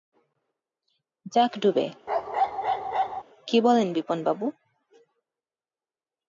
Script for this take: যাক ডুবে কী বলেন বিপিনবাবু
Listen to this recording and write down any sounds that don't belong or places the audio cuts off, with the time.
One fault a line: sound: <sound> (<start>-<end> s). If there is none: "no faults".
sound: bark (2.1-3.2 s)